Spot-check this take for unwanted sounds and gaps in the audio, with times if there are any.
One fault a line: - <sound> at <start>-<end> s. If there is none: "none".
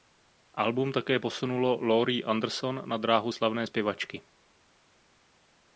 none